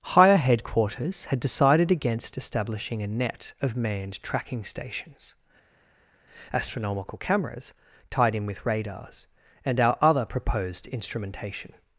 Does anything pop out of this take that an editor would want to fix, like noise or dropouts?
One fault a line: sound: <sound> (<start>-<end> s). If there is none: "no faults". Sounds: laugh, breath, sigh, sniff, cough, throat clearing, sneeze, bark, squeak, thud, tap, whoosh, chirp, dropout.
no faults